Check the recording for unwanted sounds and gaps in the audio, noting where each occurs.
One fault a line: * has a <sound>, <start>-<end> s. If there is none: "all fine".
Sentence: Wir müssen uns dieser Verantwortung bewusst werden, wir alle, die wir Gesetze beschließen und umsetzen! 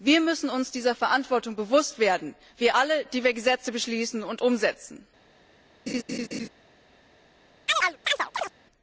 * has a laugh, 5.9-6.5 s
* has a chirp, 7.7-8.5 s